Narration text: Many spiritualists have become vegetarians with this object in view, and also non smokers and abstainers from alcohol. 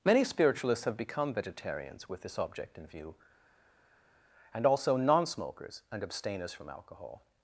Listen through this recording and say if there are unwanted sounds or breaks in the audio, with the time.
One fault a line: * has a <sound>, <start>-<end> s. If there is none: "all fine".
all fine